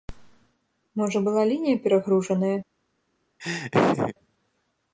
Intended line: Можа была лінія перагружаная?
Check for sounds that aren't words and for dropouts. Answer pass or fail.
fail